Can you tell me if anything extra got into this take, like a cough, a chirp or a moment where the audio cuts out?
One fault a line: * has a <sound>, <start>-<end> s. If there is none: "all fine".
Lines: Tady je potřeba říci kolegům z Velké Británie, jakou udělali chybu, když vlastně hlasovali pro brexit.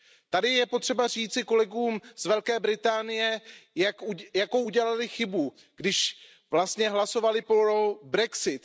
all fine